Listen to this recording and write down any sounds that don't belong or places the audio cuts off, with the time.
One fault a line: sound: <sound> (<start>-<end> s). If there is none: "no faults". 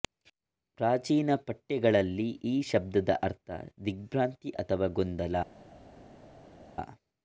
no faults